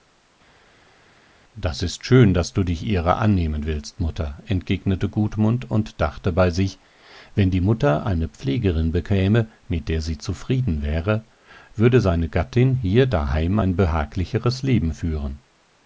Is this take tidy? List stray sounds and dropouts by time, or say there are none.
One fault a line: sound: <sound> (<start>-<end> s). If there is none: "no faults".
no faults